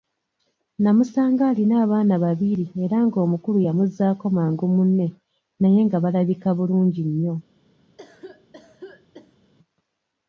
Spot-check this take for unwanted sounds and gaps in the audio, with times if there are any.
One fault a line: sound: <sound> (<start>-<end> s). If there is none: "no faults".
sound: cough (8.0-9.5 s)